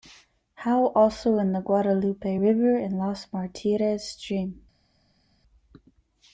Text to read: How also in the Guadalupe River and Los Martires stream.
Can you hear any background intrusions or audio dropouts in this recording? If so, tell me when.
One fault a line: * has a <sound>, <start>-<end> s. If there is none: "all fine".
all fine